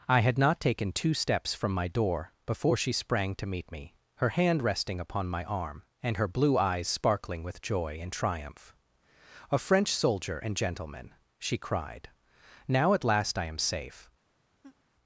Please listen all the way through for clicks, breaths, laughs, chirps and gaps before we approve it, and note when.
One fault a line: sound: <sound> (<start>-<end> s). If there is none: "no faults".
sound: laugh (14.6-14.8 s)